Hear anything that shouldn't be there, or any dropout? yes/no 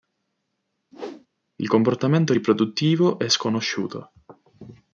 yes